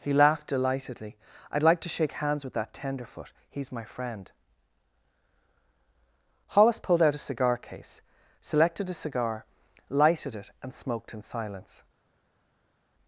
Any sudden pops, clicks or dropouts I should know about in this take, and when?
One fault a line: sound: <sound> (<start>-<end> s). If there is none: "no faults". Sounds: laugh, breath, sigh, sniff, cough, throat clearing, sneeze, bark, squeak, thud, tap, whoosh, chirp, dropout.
no faults